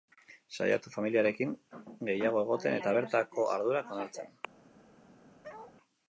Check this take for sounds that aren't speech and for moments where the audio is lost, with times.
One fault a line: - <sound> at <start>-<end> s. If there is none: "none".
- bark at 5.4-5.8 s